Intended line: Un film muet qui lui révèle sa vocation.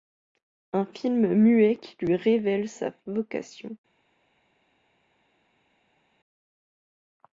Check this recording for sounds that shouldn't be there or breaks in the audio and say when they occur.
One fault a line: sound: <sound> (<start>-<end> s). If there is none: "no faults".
no faults